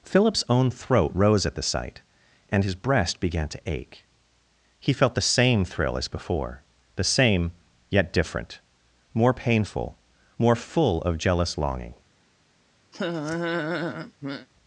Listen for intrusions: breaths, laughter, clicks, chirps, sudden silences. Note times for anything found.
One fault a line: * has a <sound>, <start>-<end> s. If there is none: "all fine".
* has a laugh, 12.9-14.5 s